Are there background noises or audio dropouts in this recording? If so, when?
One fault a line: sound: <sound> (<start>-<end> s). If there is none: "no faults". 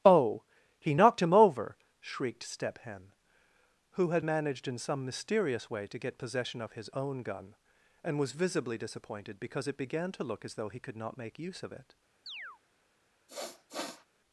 sound: chirp (12.3-12.6 s)
sound: sniff (13.3-14.0 s)